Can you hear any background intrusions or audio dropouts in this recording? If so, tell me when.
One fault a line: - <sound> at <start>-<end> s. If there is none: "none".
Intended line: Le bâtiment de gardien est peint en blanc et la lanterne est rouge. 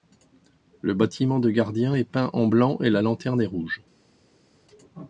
none